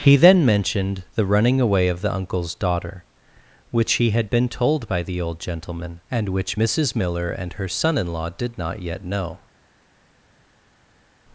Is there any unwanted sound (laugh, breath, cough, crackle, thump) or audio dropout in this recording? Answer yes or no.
no